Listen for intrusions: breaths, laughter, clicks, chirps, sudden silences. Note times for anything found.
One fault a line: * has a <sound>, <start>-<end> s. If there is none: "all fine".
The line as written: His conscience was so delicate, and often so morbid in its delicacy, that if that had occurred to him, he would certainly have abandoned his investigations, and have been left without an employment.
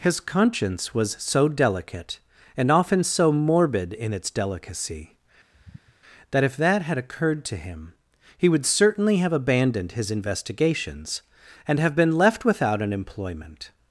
* has a sigh, 5.5-6.0 s